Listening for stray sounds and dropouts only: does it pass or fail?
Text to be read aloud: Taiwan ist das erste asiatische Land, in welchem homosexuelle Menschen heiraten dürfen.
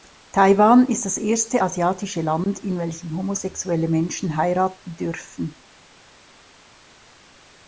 pass